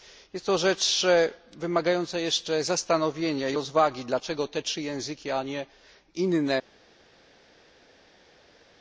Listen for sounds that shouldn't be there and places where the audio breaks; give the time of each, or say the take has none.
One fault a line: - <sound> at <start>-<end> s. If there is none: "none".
none